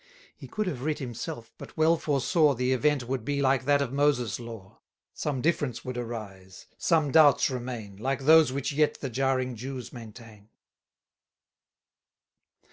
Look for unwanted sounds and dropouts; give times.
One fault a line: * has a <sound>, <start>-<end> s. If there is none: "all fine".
all fine